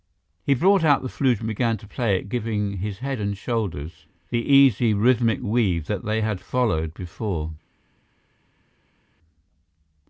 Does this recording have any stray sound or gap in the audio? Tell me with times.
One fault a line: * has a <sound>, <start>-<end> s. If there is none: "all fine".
all fine